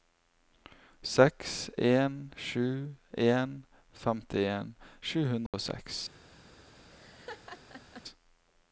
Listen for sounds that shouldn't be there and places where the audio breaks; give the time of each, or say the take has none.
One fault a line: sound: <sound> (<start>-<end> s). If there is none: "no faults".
sound: dropout (5.5-5.5 s)
sound: laugh (6.9-8.0 s)